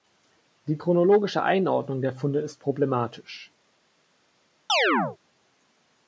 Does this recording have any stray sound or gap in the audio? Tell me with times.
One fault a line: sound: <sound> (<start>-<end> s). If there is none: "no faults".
sound: chirp (4.7-5.2 s)